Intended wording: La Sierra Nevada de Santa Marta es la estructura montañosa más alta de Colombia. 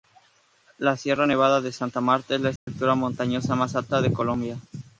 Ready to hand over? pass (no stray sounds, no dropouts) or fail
fail